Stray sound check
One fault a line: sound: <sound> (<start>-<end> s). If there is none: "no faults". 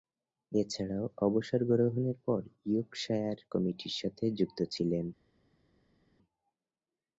no faults